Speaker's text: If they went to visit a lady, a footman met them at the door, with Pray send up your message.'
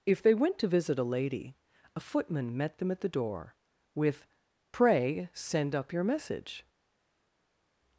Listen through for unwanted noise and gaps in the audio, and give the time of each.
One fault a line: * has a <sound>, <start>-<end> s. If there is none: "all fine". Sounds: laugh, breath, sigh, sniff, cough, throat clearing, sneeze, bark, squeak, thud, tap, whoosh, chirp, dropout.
all fine